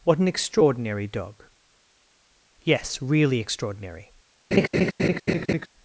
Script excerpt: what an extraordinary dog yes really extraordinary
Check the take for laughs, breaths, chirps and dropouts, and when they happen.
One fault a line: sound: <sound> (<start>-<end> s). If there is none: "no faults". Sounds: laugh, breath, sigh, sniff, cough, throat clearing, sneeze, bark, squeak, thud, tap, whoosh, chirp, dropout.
sound: laugh (4.5-5.7 s)